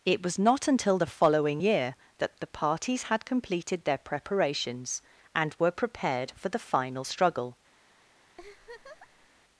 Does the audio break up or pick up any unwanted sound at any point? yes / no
yes